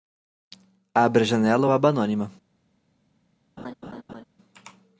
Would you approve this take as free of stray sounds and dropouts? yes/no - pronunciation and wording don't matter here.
no